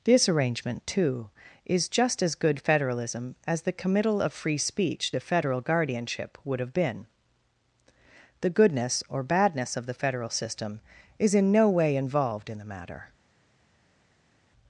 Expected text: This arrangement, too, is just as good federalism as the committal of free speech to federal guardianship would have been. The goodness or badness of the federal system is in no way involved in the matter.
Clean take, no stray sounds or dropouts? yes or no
yes